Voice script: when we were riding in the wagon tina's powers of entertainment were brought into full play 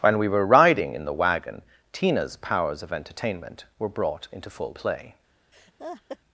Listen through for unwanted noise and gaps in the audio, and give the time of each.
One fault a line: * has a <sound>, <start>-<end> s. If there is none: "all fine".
* has a laugh, 5.5-6.2 s